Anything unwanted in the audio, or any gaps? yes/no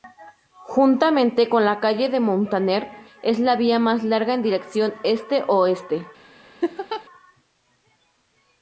yes